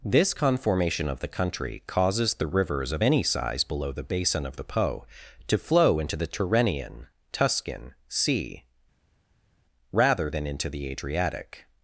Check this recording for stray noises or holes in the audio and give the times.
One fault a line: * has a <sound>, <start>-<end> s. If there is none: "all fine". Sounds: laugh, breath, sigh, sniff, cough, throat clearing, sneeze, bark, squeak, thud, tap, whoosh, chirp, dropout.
all fine